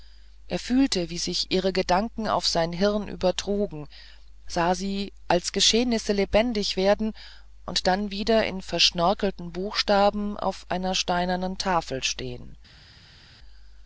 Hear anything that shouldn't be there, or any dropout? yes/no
no